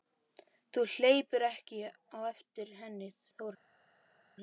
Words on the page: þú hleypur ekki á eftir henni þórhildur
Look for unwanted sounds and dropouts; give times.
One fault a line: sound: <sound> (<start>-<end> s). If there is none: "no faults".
no faults